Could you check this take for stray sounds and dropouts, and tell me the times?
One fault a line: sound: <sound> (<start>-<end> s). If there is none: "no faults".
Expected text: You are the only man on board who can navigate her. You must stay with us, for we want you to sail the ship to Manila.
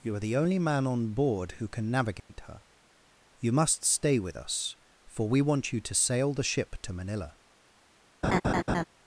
sound: dropout (2.2-2.3 s)
sound: laugh (8.2-8.8 s)